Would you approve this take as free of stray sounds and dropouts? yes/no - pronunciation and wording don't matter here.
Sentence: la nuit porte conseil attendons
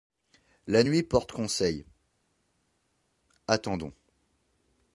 yes